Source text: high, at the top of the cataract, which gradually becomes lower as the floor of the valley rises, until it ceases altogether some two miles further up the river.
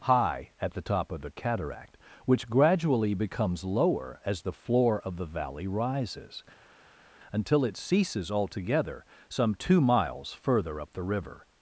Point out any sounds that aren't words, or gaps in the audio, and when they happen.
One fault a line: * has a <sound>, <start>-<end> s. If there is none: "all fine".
all fine